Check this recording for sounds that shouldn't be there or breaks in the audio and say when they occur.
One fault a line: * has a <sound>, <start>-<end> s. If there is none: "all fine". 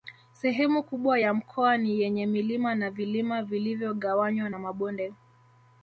all fine